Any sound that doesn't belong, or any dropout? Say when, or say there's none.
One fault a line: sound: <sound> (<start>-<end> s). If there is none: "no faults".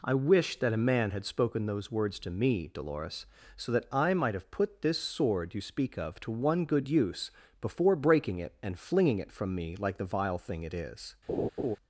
sound: laugh (11.3-11.8 s)